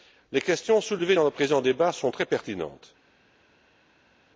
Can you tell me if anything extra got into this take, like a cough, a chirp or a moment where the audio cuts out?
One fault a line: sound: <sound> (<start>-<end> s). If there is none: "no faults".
no faults